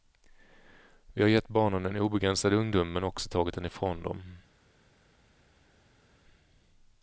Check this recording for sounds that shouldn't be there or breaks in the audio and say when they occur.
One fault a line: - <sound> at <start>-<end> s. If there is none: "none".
none